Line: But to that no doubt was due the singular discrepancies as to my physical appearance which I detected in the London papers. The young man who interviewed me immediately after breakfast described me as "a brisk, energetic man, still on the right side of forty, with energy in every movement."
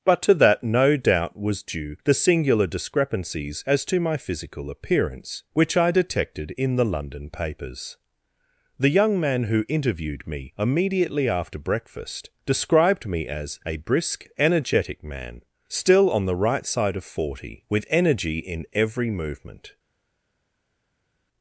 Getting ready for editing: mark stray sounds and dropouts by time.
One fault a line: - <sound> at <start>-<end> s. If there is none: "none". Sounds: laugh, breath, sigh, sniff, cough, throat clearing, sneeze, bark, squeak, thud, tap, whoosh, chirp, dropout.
none